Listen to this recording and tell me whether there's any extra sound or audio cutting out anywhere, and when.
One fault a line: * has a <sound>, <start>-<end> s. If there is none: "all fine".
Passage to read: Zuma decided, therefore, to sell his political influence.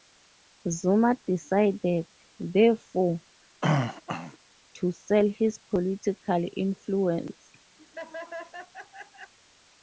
* has a throat clearing, 3.6-4.4 s
* has a laugh, 7.8-9.3 s